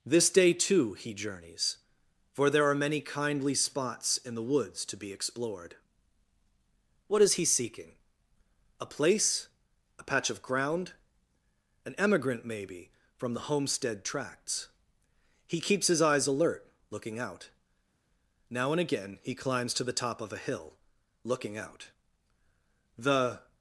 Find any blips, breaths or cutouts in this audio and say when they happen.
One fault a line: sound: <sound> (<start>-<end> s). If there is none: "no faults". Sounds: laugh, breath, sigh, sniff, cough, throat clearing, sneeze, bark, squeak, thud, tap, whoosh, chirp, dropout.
no faults